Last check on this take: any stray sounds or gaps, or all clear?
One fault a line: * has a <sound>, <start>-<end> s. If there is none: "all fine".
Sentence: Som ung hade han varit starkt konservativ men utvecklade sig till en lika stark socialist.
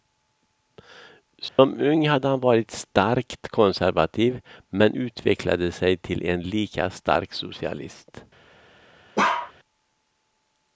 * has a dropout, 1.5-1.6 s
* has a bark, 9.2-9.5 s